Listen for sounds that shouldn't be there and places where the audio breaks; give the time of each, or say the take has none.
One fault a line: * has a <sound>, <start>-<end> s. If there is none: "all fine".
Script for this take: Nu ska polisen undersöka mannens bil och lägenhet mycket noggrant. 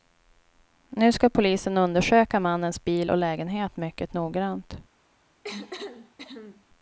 * has a cough, 5.4-6.6 s